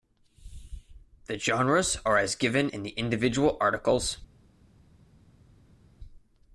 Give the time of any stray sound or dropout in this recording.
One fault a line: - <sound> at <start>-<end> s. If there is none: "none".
none